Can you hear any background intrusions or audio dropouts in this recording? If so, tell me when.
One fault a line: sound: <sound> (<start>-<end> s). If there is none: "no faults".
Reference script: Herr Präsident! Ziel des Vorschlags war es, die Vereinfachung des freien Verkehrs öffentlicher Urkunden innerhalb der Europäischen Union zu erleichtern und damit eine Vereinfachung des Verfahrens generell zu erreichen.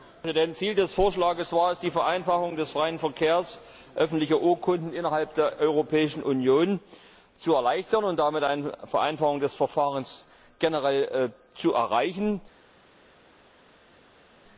no faults